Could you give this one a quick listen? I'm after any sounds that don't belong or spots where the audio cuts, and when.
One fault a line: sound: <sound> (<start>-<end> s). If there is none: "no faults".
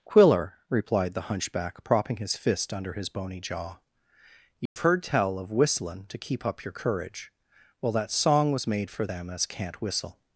sound: dropout (4.7-4.8 s)